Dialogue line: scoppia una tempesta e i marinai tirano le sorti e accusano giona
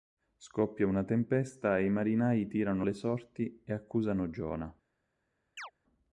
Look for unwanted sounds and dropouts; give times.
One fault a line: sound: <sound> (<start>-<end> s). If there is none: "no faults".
sound: chirp (5.6-5.7 s)